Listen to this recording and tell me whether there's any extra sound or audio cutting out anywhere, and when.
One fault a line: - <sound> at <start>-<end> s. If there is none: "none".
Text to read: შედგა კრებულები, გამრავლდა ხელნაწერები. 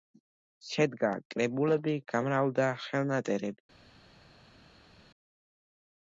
none